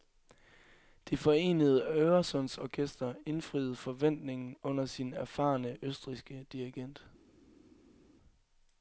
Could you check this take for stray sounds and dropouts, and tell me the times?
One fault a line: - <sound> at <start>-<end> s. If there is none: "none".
none